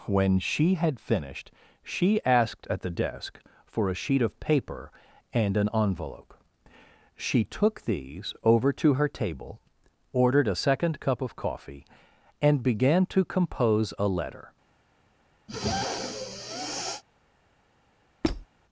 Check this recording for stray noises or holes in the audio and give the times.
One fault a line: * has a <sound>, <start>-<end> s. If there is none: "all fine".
* has a sniff, 15.5-17.0 s
* has a squeak, 18.2-18.5 s